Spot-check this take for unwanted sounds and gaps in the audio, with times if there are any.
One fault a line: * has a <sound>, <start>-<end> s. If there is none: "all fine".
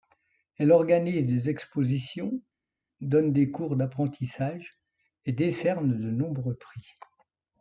all fine